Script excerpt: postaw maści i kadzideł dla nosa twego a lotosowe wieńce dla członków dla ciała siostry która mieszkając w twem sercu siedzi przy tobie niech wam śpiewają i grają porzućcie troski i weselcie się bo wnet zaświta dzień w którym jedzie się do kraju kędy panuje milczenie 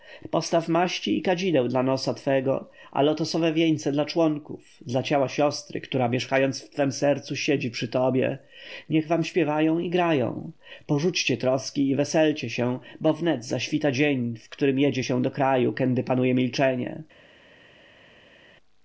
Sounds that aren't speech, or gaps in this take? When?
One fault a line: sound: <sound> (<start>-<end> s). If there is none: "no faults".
no faults